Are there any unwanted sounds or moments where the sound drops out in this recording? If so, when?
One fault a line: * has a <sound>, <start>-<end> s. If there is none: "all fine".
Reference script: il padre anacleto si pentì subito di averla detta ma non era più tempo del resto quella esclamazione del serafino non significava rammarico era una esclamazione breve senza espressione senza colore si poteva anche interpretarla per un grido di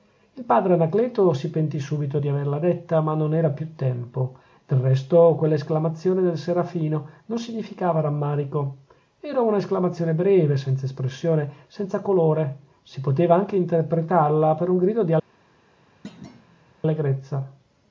* has a thud, 16.0-16.7 s